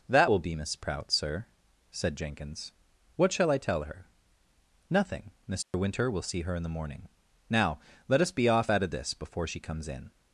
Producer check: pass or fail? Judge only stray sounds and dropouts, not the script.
fail